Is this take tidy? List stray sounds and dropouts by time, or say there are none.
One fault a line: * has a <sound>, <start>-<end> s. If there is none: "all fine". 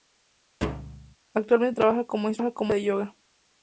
* has a thud, 0.6-1.2 s